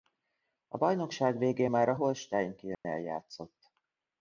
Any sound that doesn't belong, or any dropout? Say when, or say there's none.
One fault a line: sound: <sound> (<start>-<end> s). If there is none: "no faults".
sound: dropout (2.7-2.8 s)